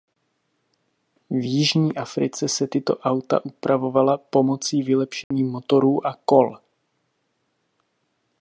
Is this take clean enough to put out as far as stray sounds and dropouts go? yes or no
no